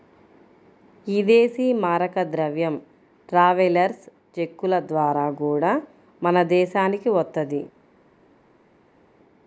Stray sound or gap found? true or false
false